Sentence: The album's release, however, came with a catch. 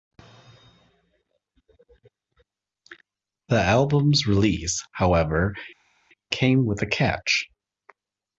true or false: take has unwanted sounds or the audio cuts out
false